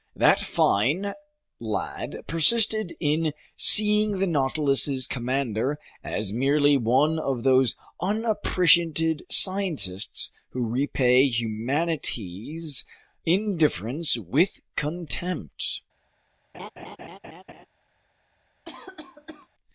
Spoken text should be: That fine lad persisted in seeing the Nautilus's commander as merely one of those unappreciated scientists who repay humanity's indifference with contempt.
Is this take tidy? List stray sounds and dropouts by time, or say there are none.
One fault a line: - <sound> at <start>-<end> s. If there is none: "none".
- laugh at 16.5-17.7 s
- cough at 18.6-19.5 s